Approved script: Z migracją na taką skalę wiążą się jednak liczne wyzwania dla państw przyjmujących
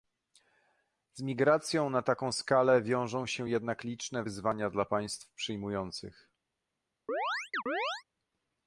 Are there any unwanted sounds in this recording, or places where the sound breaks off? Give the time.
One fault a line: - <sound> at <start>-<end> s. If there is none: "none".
- chirp at 7.1-8.0 s